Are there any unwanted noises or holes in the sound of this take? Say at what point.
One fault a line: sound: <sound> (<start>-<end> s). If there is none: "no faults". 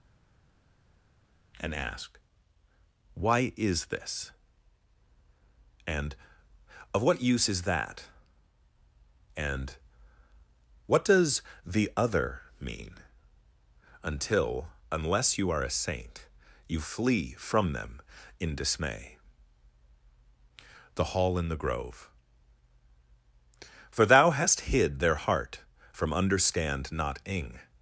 no faults